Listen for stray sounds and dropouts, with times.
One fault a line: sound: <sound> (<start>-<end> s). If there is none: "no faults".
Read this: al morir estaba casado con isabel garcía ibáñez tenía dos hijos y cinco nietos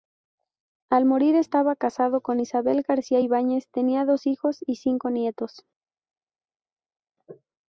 no faults